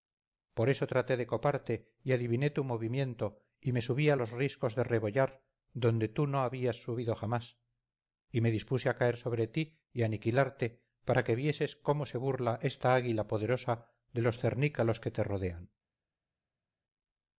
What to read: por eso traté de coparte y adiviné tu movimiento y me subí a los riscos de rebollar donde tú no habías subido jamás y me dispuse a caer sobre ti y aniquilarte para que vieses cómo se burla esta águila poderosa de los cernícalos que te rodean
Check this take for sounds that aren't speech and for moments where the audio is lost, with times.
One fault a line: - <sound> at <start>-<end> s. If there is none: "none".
none